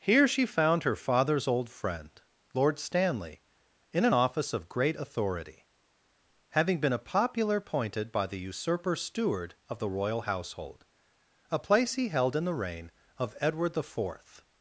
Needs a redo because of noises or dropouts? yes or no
no